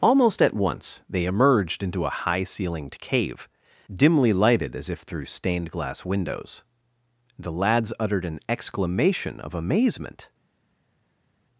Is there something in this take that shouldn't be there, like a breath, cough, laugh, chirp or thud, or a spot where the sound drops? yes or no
no